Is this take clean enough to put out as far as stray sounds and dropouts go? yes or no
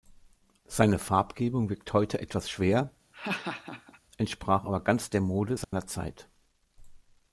no